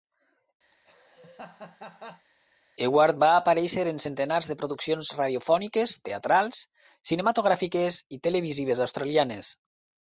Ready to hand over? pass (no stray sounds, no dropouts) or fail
fail